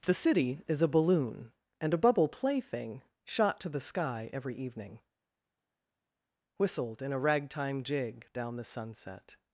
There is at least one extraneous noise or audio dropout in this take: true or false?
false